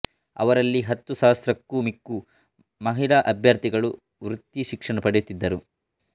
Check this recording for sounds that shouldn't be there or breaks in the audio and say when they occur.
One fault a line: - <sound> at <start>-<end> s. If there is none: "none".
none